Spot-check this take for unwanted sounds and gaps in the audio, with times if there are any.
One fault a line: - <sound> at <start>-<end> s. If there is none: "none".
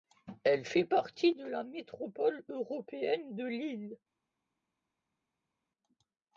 none